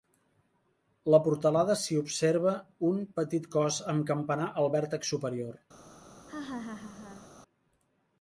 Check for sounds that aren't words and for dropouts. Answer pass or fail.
fail